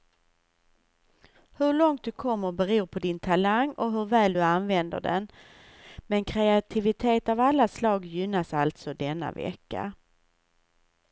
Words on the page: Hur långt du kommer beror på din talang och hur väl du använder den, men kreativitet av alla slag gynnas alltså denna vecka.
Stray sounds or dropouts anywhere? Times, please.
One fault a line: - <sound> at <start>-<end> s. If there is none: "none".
none